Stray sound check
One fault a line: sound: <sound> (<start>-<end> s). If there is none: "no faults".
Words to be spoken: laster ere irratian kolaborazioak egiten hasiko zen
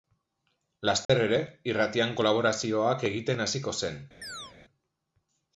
sound: dropout (1.0-1.1 s)
sound: chirp (4.2-4.5 s)